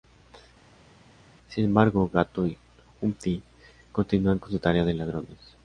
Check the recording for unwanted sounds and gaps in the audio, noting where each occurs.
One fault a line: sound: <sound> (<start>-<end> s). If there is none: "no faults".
no faults